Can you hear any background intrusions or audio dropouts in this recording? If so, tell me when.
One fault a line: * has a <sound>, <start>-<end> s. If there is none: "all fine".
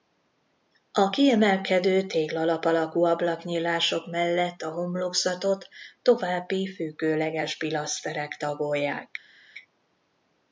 all fine